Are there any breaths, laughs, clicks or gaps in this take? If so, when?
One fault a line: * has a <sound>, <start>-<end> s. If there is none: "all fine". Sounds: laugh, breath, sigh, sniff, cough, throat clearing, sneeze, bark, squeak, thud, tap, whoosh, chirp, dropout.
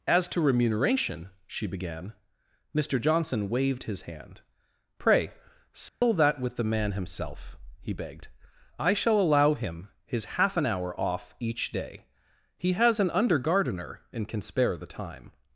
* has a dropout, 5.9-6.0 s